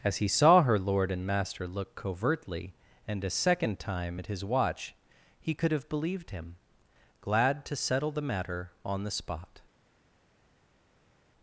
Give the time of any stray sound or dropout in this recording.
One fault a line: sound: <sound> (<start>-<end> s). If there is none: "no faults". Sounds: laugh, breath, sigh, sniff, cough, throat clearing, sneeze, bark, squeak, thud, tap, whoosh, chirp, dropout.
no faults